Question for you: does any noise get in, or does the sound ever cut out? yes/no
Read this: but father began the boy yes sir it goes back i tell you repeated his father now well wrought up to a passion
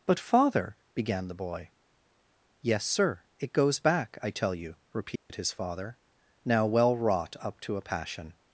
yes